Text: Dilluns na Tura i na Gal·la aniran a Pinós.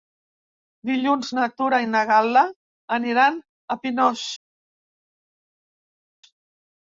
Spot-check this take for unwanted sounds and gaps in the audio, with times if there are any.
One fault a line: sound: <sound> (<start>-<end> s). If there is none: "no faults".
no faults